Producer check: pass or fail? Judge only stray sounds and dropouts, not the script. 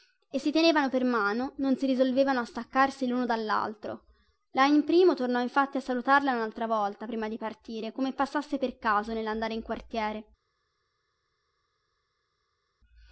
pass